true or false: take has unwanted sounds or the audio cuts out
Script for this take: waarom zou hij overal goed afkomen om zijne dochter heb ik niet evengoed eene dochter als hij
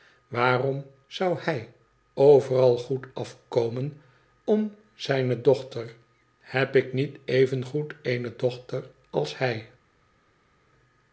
false